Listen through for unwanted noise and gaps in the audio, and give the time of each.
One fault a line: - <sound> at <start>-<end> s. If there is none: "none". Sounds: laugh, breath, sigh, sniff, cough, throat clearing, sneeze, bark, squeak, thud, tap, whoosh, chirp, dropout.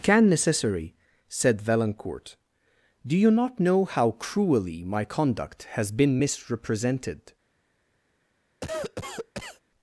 - cough at 8.6-9.6 s